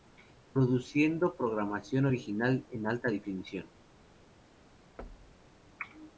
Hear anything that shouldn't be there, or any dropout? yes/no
yes